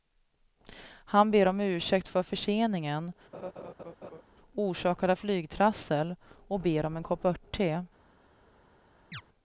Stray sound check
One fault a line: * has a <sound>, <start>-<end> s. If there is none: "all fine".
* has a laugh, 3.3-4.2 s
* has a chirp, 9.1-9.2 s